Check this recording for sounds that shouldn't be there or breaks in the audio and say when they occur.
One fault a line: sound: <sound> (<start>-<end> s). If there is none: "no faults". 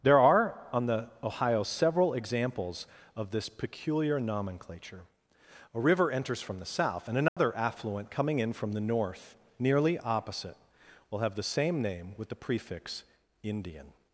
sound: dropout (7.3-7.4 s)